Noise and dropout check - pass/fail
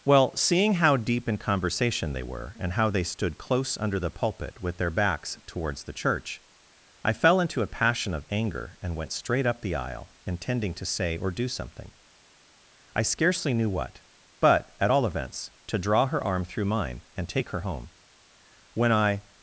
pass